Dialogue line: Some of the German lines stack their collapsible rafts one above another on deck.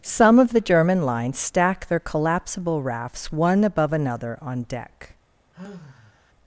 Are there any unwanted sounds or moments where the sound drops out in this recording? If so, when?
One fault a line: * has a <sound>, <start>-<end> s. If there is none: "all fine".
* has a sigh, 5.5-6.3 s